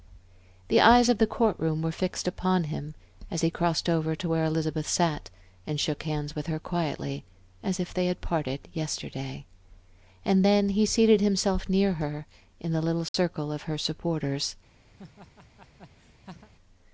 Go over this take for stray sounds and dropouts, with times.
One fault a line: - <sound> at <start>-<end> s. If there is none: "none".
- dropout at 13.1-13.1 s
- laugh at 15.0-16.5 s